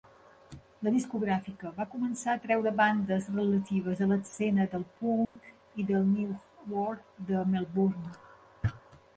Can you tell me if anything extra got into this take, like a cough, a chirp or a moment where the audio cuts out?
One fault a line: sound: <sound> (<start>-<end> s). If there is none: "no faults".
sound: dropout (5.2-5.4 s)